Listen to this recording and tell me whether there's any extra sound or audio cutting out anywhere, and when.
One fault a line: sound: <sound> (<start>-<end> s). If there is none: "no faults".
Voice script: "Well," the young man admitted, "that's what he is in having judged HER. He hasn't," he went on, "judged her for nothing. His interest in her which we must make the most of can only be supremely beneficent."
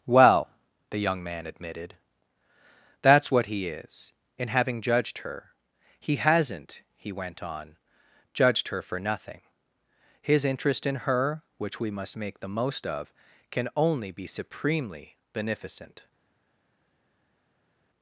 no faults